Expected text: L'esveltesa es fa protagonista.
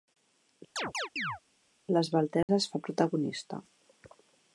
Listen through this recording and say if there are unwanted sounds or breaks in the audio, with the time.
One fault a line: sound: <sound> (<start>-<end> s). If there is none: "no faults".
sound: chirp (0.8-1.4 s)
sound: dropout (2.4-2.5 s)